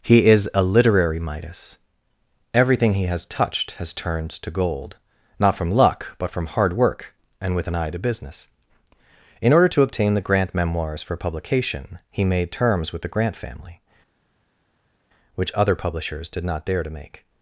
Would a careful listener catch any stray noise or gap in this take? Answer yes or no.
no